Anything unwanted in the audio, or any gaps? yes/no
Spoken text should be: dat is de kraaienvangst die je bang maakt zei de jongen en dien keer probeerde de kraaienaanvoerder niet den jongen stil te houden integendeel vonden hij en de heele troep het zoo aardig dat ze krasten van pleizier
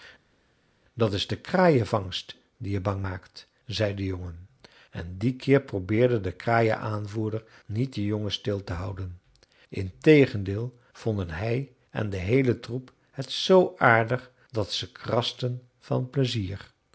no